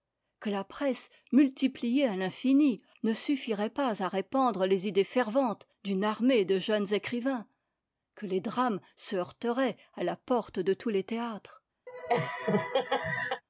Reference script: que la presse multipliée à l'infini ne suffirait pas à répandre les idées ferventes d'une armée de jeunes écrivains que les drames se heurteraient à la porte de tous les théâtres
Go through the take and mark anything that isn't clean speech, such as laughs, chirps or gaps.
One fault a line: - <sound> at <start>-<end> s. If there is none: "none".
- laugh at 11.9-13.4 s